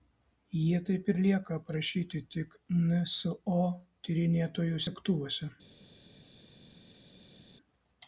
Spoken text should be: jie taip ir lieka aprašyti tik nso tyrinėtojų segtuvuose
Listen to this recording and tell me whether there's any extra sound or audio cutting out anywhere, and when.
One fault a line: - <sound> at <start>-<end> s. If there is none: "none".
none